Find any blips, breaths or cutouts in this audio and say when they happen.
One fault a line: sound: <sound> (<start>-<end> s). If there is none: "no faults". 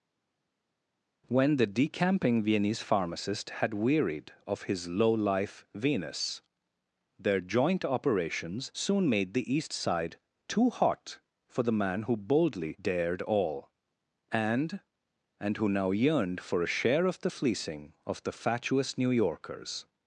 no faults